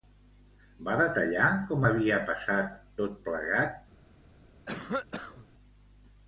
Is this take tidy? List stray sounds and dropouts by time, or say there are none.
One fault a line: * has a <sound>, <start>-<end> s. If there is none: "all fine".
* has a cough, 4.7-5.5 s